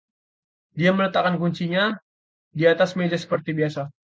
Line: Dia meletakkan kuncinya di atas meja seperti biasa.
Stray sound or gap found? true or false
false